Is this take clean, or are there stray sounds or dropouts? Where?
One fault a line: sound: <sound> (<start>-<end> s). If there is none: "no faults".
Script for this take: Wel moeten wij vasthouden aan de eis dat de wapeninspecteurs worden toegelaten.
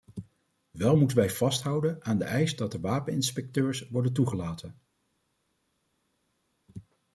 no faults